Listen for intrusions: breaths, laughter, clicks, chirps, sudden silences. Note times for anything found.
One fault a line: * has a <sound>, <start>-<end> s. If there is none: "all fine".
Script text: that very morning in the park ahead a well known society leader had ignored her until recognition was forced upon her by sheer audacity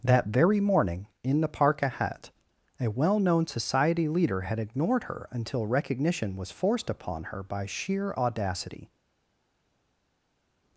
all fine